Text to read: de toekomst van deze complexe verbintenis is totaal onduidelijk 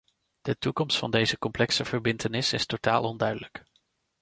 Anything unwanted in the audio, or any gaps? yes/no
no